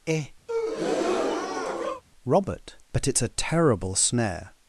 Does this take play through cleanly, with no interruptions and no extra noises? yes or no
no